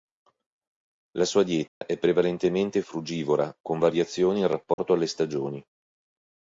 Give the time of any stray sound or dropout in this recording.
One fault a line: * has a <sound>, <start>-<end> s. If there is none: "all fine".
* has a dropout, 1.7-1.8 s
* has a dropout, 4.7-4.8 s